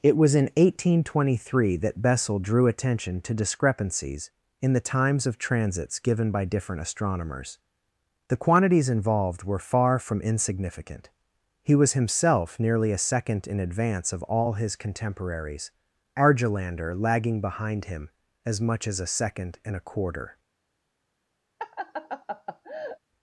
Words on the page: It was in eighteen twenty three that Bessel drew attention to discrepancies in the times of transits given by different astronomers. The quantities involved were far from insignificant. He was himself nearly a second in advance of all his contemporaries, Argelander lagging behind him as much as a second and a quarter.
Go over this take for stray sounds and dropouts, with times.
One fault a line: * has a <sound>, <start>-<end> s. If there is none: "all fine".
* has a laugh, 21.6-23.0 s